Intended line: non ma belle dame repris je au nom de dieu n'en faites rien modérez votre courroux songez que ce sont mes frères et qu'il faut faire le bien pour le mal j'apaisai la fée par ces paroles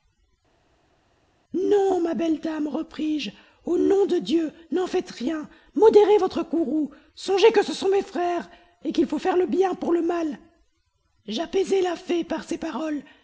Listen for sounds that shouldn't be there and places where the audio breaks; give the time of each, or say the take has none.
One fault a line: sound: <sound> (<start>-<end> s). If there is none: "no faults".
no faults